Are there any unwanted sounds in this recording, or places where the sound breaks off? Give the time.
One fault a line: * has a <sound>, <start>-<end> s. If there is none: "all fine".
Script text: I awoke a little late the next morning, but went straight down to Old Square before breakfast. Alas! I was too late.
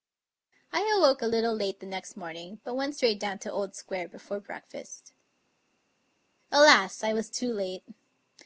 all fine